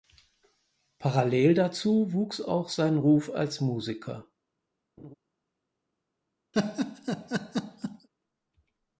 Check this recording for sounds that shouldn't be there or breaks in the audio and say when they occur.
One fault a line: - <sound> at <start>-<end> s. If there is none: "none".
- laugh at 5.0-5.1 s
- laugh at 6.5-8.1 s